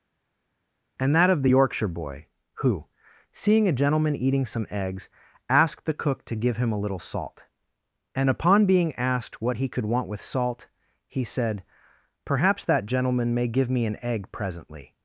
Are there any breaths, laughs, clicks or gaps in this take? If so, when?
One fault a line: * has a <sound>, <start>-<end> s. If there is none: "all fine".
all fine